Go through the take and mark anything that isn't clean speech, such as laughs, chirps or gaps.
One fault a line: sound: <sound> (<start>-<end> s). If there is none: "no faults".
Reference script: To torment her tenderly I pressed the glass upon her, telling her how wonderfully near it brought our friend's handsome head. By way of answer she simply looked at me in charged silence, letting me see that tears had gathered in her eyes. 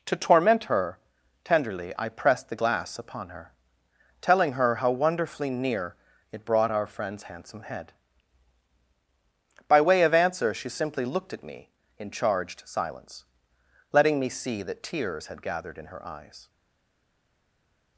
no faults